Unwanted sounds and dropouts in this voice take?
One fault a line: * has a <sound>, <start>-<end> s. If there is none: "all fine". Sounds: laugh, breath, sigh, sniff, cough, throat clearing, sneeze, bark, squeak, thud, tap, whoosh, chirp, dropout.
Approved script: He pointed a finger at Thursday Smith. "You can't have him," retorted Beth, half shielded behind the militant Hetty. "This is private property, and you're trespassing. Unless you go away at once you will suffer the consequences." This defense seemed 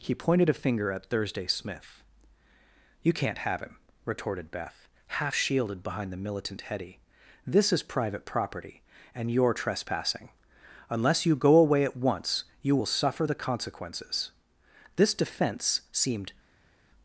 all fine